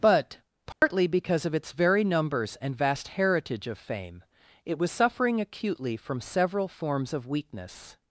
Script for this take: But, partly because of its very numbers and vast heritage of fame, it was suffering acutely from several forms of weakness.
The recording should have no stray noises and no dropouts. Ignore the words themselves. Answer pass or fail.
fail